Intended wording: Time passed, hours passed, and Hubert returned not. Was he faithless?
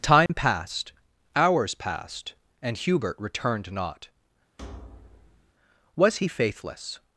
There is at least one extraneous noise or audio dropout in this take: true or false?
true